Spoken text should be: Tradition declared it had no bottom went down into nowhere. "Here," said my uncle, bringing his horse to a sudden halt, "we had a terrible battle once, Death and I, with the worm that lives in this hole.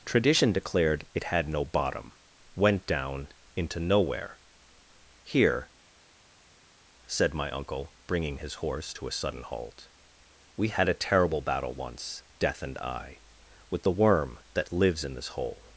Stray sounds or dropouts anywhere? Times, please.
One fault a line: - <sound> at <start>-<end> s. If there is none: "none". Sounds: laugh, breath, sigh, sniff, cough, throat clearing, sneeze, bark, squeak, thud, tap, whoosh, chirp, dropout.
none